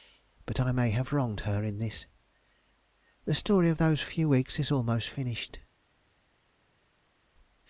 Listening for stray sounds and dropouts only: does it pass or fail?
pass